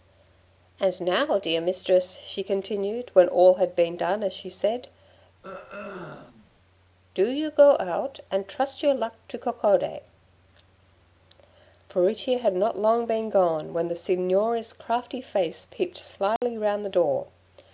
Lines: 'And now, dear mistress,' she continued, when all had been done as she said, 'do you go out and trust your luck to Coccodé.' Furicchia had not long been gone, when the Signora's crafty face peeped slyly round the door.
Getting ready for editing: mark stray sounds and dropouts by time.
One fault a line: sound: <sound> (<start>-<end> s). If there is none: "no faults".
sound: throat clearing (5.4-6.5 s)
sound: dropout (16.4-16.4 s)